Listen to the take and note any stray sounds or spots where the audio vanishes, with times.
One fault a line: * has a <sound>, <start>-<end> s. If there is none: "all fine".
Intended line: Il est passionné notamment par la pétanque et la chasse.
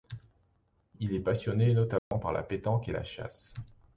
* has a dropout, 2.0-2.1 s